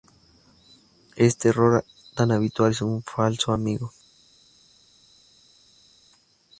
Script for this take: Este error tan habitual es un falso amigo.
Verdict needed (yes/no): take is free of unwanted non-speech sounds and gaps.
yes